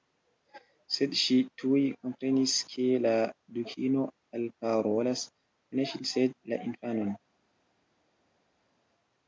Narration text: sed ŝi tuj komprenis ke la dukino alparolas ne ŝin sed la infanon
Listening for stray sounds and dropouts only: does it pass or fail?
pass